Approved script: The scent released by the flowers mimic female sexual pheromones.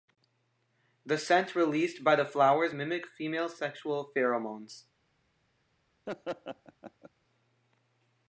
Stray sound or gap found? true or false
true